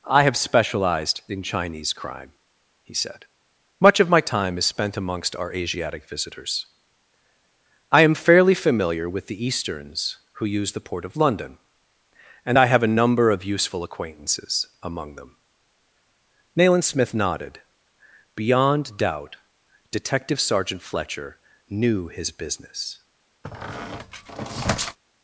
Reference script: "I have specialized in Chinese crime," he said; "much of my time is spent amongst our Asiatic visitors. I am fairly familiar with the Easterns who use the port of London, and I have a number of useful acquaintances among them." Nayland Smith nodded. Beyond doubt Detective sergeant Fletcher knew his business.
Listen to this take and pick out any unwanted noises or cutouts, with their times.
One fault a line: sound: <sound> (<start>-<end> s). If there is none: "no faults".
sound: squeak (23.4-25.0 s)